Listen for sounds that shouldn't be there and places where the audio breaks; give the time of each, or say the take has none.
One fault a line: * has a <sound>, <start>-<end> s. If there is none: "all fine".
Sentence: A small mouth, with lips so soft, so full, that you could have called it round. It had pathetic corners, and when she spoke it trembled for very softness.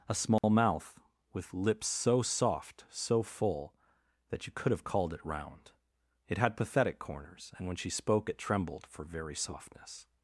* has a dropout, 0.4-0.4 s